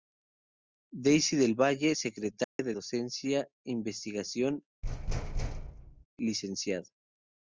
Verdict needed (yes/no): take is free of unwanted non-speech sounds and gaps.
no